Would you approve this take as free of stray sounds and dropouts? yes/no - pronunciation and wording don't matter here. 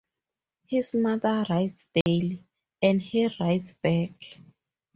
no